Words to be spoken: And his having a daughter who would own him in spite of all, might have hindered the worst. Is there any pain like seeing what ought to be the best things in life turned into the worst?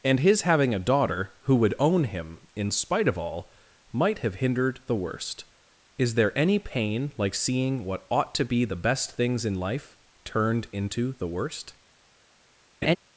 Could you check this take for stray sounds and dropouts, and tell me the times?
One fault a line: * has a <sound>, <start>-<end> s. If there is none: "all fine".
* has a laugh, 12.8-13.0 s